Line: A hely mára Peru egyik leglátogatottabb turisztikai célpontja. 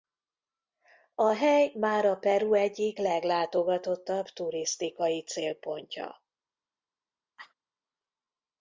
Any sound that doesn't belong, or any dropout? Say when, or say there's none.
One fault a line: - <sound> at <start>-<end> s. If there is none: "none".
- cough at 7.4-7.5 s